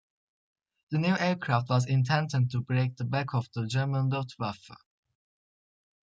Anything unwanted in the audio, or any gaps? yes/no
no